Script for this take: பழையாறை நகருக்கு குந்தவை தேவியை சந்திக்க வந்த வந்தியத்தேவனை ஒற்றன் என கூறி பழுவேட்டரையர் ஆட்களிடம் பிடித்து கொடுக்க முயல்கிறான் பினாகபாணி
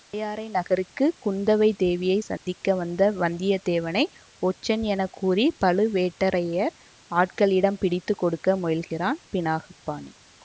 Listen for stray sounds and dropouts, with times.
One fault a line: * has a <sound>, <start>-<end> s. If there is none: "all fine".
* has a dropout, 2.4-2.5 s